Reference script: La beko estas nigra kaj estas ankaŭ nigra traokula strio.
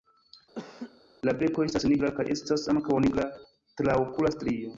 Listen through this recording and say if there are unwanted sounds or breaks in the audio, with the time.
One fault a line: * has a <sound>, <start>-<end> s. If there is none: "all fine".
* has a laugh, 0.6-1.0 s